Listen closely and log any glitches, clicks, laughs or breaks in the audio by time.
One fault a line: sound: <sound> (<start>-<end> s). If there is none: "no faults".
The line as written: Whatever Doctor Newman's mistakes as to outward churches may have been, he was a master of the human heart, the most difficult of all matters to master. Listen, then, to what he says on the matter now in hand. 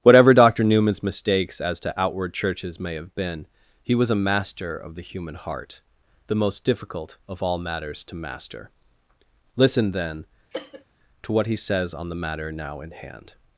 sound: cough (10.5-10.8 s)